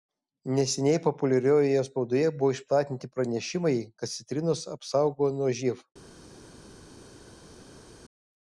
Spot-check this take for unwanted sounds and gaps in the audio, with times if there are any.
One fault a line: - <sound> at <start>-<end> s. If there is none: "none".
none